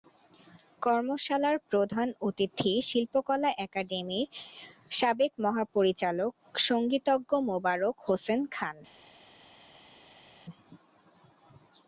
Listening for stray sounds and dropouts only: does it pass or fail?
pass